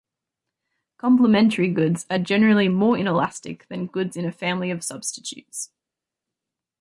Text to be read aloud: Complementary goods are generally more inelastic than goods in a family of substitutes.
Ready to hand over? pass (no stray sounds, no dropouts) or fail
pass